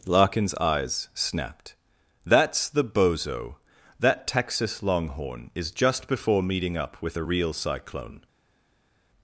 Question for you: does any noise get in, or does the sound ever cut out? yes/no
no